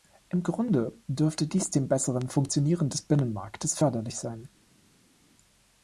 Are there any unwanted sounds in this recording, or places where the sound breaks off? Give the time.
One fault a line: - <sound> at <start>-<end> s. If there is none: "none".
none